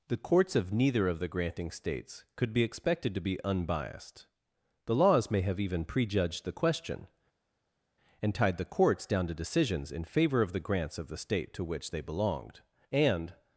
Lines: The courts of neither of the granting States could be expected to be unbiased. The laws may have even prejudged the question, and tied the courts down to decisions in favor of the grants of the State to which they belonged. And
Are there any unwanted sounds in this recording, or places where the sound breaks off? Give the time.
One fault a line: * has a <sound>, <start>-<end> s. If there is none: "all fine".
all fine